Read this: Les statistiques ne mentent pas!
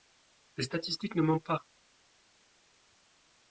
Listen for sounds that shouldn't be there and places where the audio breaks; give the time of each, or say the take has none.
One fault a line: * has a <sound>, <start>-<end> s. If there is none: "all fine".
all fine